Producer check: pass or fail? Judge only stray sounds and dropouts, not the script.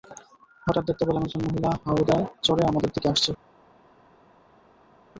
pass